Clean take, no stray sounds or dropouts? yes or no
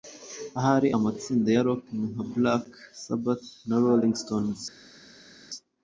yes